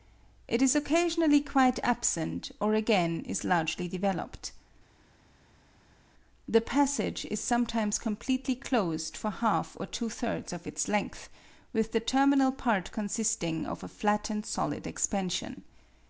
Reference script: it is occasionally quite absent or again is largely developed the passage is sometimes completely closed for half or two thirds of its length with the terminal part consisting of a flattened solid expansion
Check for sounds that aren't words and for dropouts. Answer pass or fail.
pass